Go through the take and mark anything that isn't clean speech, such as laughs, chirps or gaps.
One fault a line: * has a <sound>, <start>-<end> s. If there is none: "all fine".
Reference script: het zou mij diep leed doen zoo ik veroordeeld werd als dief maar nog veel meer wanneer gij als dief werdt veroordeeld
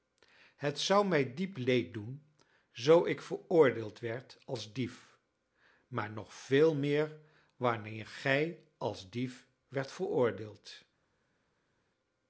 all fine